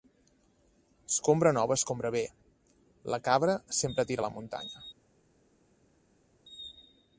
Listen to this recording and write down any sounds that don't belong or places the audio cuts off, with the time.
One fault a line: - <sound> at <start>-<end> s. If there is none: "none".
none